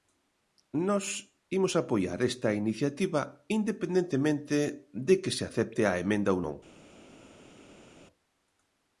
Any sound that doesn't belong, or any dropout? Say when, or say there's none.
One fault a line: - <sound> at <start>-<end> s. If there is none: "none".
none